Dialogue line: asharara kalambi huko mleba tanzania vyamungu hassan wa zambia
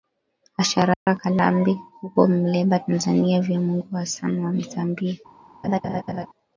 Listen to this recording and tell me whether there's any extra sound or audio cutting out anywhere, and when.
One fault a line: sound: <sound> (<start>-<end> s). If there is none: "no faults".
sound: dropout (0.9-1.1 s)
sound: laugh (5.6-6.3 s)